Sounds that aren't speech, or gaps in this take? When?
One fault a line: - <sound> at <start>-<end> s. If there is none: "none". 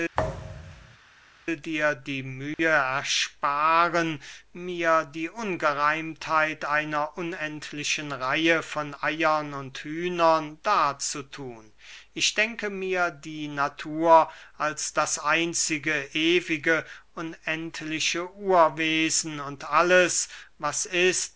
- thud at 0.1-1.0 s
- dropout at 2.5-2.6 s